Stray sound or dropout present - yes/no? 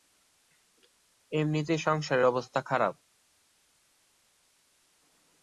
no